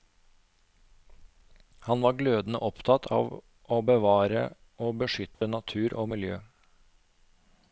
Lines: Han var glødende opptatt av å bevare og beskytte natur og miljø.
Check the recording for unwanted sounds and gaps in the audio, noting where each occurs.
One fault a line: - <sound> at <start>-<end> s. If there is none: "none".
- dropout at 5.3-5.4 s